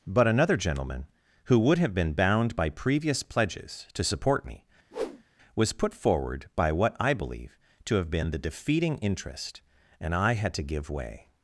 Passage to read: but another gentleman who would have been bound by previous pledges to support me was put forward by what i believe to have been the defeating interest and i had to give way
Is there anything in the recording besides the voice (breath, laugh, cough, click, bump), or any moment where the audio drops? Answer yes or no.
yes